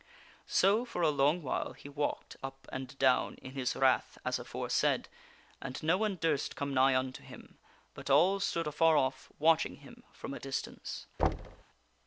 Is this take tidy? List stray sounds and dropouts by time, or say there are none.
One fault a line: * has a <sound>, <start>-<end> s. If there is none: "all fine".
* has a thud, 11.2-11.6 s